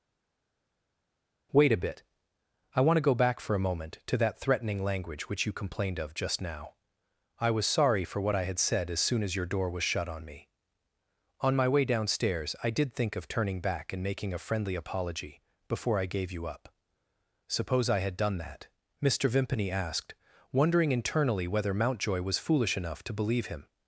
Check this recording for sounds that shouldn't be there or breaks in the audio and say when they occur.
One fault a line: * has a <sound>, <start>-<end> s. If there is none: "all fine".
all fine